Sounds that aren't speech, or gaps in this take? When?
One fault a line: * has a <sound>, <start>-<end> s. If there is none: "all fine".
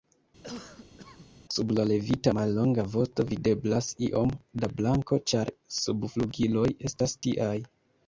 * has a cough, 0.4-1.3 s